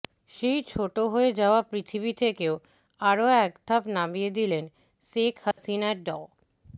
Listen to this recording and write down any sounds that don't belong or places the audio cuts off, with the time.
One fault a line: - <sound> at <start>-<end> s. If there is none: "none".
- dropout at 5.5-5.6 s